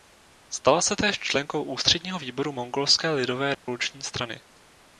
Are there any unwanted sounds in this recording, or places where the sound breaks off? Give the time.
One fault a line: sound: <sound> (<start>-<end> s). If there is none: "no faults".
sound: dropout (3.5-3.7 s)